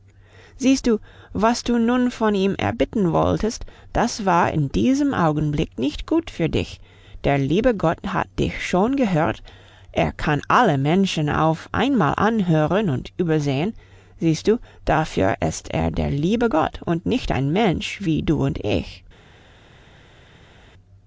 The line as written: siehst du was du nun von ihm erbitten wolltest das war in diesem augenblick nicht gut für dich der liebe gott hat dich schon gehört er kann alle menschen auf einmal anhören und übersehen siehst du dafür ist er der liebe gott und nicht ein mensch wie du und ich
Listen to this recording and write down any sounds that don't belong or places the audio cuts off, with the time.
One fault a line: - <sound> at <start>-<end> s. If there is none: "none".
none